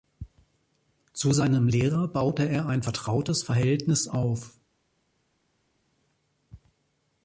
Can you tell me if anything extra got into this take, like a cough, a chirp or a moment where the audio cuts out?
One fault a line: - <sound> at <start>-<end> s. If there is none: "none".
none